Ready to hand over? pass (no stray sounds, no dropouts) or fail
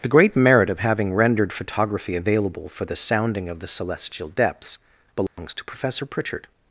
fail